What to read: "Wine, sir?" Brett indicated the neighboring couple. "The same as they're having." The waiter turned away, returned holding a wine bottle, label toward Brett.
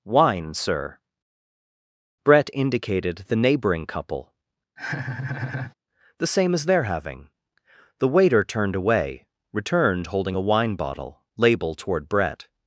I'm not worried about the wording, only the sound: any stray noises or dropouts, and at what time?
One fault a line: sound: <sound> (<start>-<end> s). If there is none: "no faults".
sound: laugh (4.8-5.7 s)